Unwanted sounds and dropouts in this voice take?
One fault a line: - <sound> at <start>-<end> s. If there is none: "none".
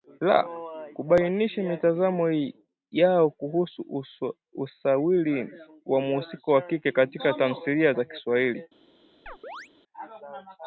- chirp at 9.3-9.7 s